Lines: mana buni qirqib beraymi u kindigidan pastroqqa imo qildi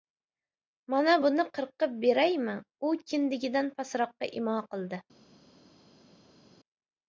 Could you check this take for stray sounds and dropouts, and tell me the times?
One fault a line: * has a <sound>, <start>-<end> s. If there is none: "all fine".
all fine